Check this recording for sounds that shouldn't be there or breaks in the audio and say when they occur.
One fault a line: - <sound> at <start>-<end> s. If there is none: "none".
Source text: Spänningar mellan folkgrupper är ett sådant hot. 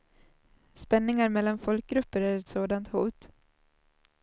none